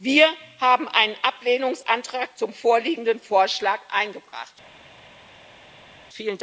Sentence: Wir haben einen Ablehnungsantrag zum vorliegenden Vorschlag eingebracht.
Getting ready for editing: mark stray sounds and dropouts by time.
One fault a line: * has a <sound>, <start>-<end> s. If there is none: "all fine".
all fine